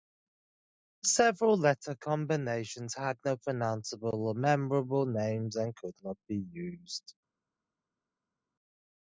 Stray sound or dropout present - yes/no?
no